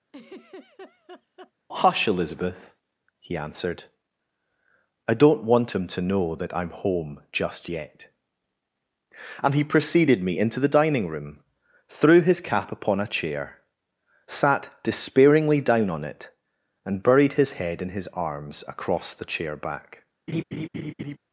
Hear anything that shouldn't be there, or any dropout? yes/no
yes